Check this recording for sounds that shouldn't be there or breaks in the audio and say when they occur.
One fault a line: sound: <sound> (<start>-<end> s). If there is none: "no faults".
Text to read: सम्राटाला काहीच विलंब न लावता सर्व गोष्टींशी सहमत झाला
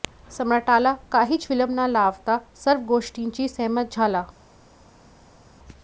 no faults